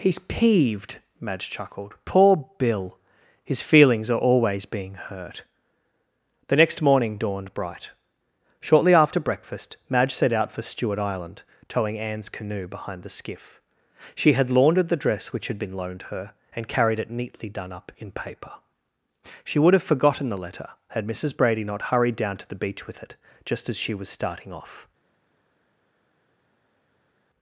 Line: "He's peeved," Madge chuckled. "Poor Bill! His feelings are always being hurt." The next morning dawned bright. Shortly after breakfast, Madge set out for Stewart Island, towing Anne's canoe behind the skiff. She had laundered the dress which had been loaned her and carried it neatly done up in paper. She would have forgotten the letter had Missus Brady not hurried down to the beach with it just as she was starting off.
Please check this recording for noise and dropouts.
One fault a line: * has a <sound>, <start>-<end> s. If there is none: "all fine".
all fine